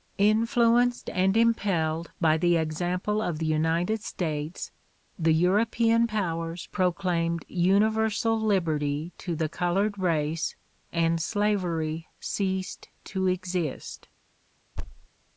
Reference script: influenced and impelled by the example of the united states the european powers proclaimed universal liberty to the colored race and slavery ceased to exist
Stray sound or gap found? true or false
true